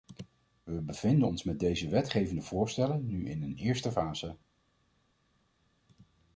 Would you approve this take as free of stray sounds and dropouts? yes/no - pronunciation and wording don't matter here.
yes